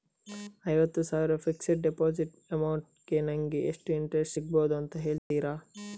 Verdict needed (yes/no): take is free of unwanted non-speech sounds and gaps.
no